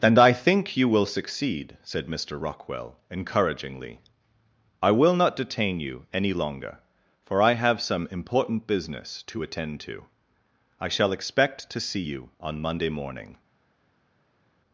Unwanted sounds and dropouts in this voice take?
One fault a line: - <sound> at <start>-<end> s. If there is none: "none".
none